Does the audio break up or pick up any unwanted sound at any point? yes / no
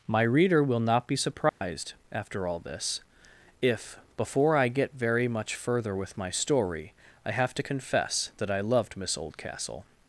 yes